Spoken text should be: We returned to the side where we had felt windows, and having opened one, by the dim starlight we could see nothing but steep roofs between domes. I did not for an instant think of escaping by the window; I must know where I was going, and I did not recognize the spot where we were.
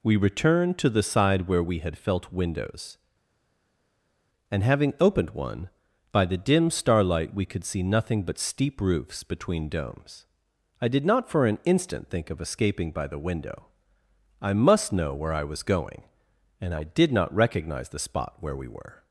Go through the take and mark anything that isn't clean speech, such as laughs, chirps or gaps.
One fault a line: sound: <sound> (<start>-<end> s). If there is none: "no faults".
no faults